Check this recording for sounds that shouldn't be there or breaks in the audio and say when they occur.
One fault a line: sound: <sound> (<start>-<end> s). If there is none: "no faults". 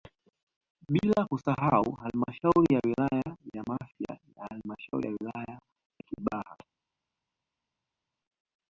no faults